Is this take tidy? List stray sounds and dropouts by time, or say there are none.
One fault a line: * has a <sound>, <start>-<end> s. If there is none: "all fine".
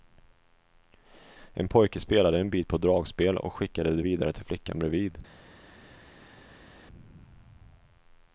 all fine